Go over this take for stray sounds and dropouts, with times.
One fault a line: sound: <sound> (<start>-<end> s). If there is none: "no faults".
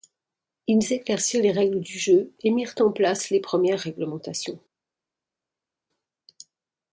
no faults